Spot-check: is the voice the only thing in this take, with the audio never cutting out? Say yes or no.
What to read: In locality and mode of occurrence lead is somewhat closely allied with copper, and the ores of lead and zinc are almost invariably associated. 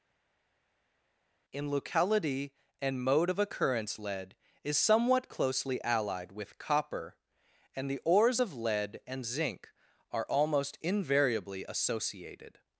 yes